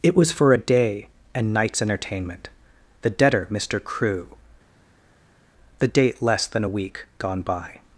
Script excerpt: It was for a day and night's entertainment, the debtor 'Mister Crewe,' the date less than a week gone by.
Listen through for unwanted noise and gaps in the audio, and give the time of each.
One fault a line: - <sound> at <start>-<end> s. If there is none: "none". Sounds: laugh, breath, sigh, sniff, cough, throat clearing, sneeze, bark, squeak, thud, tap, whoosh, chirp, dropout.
none